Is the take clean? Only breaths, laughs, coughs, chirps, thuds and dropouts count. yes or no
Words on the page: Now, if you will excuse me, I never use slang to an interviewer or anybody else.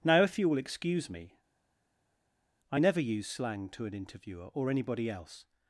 yes